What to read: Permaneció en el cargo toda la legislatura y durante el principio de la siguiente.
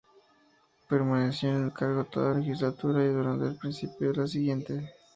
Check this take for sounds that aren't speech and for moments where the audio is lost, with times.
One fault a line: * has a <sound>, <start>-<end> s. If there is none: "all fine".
all fine